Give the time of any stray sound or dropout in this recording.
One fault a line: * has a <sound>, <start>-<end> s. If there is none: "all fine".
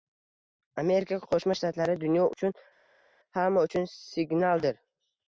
all fine